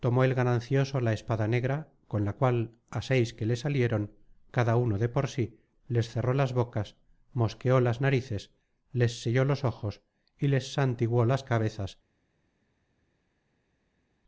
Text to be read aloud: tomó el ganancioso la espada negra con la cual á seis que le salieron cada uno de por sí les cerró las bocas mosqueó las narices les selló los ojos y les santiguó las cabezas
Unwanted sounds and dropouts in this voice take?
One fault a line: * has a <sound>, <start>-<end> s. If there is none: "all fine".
all fine